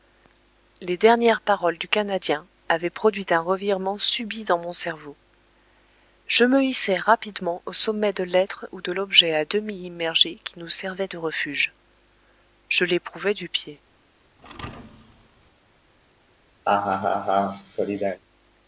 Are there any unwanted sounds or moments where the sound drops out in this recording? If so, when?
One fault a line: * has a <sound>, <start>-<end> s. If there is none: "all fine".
* has a thud, 14.4-15.5 s
* has a laugh, 16.7-18.2 s